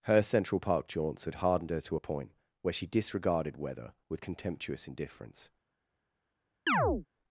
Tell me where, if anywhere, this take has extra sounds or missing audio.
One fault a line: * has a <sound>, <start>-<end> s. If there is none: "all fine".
* has a chirp, 6.7-7.1 s